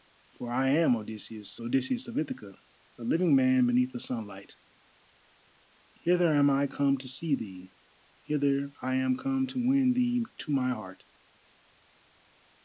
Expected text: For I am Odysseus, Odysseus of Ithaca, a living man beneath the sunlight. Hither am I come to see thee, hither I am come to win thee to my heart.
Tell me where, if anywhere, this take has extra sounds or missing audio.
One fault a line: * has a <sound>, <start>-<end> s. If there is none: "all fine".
all fine